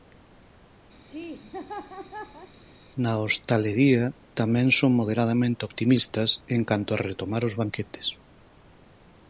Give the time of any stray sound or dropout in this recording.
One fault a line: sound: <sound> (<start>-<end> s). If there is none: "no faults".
sound: laugh (1.0-2.6 s)